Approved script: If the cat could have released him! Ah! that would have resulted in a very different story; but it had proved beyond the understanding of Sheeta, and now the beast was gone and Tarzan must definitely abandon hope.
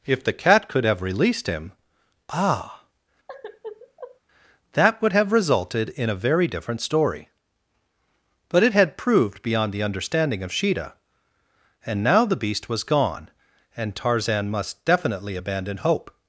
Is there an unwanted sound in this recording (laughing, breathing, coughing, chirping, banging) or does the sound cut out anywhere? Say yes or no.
yes